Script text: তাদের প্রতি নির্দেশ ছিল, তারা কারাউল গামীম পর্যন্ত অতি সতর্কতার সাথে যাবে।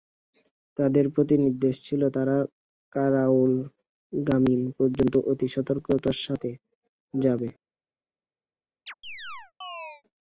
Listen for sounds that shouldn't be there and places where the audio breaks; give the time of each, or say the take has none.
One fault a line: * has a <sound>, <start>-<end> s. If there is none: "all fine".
* has a chirp, 8.9-10.0 s